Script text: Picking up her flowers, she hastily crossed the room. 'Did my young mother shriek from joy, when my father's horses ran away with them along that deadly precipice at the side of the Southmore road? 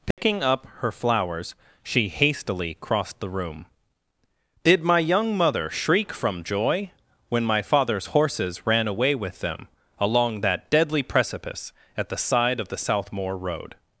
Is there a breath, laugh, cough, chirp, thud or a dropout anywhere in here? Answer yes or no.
yes